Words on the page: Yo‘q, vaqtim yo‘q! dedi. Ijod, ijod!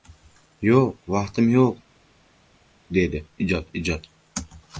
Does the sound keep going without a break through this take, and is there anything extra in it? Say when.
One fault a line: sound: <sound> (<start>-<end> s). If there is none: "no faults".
no faults